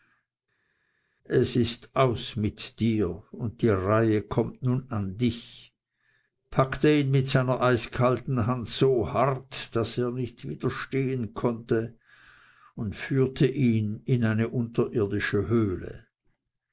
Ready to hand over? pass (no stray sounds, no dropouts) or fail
pass